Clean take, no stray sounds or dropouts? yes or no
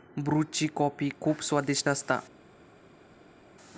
yes